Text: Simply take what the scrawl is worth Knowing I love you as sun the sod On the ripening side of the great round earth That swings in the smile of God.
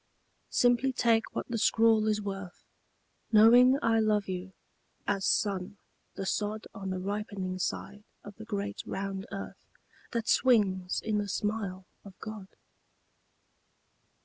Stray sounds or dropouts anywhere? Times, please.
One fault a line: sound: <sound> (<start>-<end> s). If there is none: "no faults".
no faults